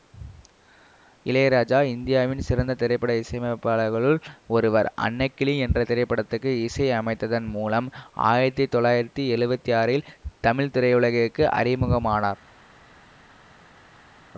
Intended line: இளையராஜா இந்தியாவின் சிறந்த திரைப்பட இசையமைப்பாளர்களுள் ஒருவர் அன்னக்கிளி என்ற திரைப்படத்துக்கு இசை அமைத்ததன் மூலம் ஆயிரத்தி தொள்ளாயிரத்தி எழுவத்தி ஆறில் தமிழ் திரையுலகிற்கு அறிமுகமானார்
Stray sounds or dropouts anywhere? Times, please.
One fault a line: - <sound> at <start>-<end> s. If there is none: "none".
none